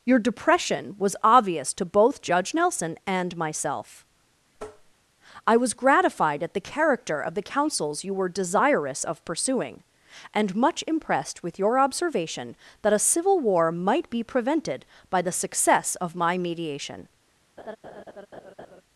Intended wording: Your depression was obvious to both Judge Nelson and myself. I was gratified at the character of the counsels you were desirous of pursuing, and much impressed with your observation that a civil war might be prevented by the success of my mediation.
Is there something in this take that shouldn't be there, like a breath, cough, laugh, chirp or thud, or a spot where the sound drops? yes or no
yes